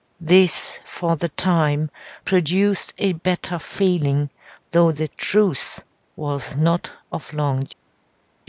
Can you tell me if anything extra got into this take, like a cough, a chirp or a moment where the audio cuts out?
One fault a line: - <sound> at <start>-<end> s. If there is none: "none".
none